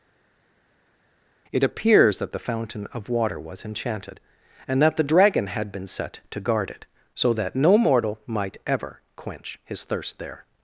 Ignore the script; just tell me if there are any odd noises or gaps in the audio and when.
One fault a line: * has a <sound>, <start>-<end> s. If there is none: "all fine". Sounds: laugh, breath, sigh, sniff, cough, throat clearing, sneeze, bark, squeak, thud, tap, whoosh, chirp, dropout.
all fine